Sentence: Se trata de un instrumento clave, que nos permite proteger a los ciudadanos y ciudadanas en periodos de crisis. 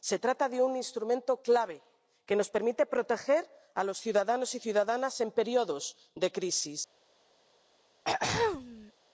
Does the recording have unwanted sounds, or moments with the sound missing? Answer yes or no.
yes